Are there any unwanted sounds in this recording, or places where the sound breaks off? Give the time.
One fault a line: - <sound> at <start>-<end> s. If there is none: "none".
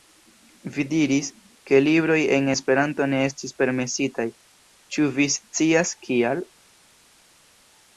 none